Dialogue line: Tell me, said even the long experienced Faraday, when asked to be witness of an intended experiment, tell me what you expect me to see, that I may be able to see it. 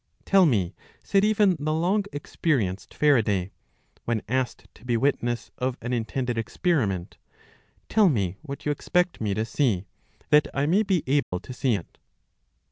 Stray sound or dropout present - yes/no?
yes